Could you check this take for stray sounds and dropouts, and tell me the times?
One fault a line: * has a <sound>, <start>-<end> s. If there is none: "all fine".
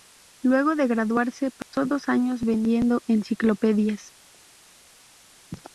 * has a dropout, 1.6-1.7 s